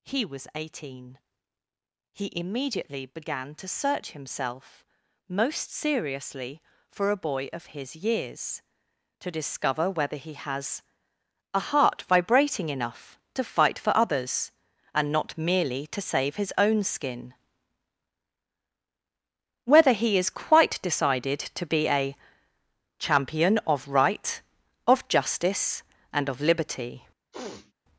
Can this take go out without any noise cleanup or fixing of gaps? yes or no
no